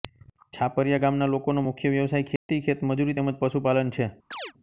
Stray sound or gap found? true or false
true